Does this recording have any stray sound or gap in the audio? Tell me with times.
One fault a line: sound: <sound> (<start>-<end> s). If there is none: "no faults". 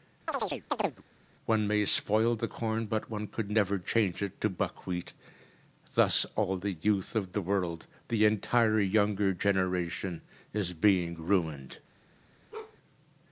sound: chirp (0.3-1.0 s)
sound: bark (12.5-12.8 s)